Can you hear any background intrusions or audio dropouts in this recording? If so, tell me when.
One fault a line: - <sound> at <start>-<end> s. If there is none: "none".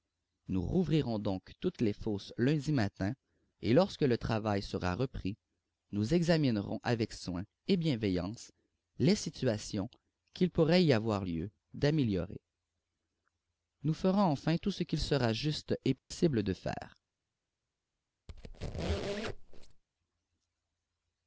- dropout at 16.0-16.1 s
- squeak at 18.3-19.8 s